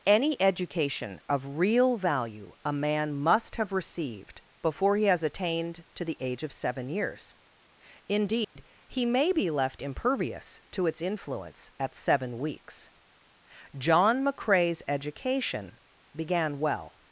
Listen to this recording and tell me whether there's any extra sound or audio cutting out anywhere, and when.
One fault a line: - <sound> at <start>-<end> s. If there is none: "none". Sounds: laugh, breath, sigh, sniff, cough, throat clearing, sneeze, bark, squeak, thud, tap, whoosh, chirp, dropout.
- dropout at 8.4-8.6 s